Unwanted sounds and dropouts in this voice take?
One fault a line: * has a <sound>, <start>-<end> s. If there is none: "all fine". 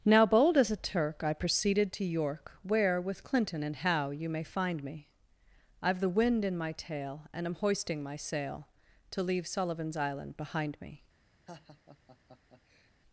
* has a laugh, 11.5-12.9 s